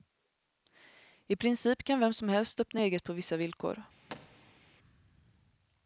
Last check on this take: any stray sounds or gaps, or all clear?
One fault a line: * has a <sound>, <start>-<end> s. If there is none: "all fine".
* has a thud, 4.1-4.6 s